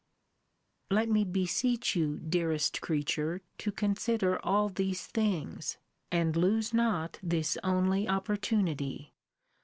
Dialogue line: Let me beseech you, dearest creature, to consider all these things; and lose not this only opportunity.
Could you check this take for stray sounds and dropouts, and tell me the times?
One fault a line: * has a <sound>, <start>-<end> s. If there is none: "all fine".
all fine